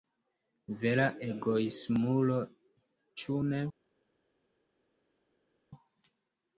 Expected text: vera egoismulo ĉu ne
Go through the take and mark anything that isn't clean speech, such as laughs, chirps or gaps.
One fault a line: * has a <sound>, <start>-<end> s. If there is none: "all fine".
all fine